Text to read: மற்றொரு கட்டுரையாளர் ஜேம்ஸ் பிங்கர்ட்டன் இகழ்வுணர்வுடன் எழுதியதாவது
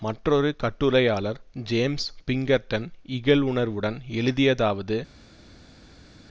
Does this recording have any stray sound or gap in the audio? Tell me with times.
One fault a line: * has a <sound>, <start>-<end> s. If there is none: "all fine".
all fine